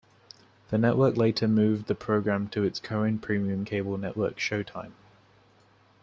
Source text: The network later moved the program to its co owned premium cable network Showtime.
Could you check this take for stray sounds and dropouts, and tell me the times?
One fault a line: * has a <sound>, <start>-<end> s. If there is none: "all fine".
all fine